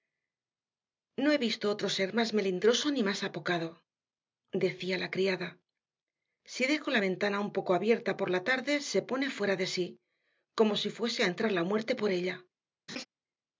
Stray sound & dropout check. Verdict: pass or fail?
fail